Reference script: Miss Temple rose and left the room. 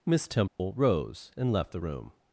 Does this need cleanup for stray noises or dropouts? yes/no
yes